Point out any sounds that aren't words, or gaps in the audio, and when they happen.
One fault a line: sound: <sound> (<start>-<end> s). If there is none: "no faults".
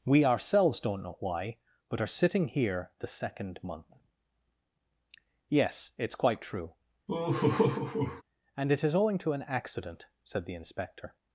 sound: laugh (7.1-8.2 s)